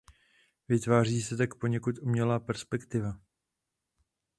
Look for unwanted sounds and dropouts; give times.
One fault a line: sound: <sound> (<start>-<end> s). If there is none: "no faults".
no faults